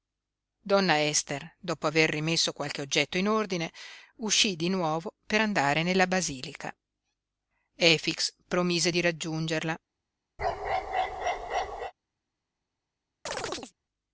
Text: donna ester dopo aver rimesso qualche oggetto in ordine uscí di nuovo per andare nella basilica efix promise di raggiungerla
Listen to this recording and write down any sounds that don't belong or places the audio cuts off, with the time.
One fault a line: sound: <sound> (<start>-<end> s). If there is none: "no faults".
sound: bark (10.4-11.9 s)
sound: chirp (13.3-13.7 s)